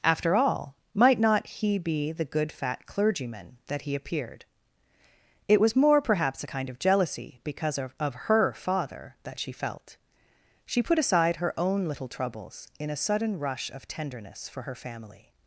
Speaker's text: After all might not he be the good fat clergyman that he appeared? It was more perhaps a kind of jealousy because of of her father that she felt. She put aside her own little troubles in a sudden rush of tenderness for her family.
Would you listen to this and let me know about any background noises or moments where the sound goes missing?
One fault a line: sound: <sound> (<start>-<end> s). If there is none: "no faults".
no faults